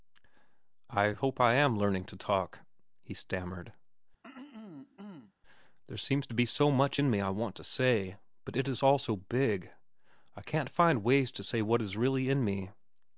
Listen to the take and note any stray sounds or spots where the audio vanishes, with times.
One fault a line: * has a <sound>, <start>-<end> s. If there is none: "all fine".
* has a throat clearing, 4.2-5.3 s